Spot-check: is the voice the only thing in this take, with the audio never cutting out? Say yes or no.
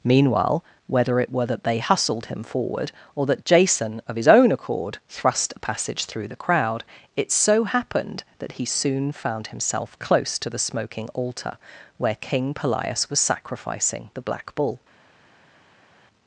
yes